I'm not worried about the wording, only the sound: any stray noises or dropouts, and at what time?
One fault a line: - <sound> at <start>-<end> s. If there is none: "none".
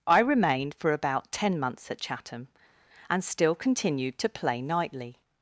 none